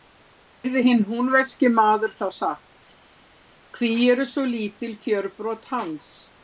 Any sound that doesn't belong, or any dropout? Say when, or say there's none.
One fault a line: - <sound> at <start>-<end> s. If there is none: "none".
none